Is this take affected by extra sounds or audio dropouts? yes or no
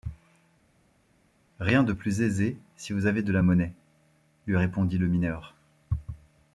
no